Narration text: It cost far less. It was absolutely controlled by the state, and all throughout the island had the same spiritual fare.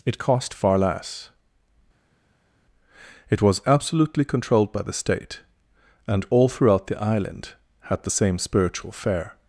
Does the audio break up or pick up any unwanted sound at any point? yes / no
no